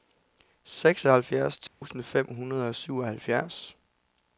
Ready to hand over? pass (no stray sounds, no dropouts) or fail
fail